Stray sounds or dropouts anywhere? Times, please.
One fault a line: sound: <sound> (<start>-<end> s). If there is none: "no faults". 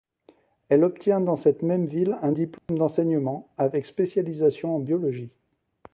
sound: dropout (2.6-2.7 s)